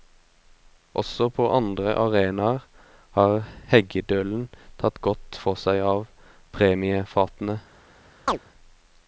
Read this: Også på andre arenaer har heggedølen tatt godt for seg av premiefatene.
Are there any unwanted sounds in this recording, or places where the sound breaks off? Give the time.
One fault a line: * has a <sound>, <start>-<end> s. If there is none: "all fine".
* has a chirp, 8.3-8.4 s